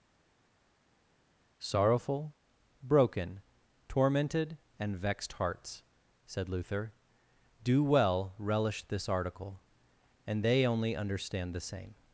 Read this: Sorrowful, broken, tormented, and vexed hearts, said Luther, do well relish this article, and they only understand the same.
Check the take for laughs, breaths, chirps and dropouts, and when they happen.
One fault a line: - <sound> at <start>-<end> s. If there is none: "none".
none